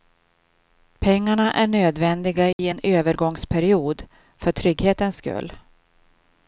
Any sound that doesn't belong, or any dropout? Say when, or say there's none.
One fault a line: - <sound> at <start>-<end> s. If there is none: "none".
- dropout at 2.5-2.6 s